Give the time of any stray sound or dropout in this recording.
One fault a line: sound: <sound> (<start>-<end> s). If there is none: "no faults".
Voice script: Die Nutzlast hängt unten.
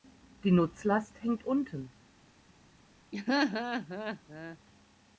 sound: laugh (3.1-4.6 s)